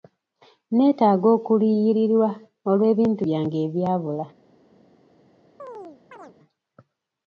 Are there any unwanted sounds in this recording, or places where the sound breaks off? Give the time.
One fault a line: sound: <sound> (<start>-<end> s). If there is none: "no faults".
sound: chirp (5.6-6.4 s)